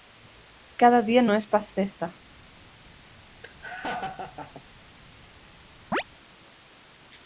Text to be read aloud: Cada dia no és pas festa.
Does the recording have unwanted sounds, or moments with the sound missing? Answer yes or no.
yes